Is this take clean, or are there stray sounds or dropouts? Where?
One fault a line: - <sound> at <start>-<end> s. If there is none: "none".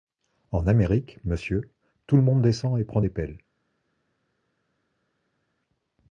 none